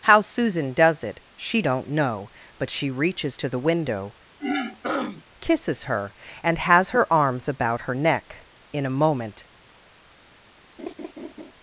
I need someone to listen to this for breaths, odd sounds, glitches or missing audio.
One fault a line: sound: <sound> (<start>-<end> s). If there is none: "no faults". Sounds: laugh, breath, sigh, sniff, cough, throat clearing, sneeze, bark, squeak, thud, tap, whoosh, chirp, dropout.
sound: throat clearing (4.4-5.2 s)
sound: laugh (10.8-11.5 s)